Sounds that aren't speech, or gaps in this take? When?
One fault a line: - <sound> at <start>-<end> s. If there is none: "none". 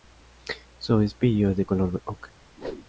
- whoosh at 2.6-2.9 s